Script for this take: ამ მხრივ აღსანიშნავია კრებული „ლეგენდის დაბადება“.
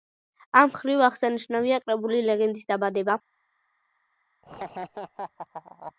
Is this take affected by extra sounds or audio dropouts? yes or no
yes